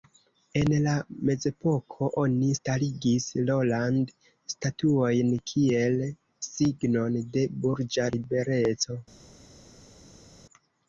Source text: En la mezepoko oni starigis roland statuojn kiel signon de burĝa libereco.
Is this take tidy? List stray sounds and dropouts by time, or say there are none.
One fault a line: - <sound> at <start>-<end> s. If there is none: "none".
none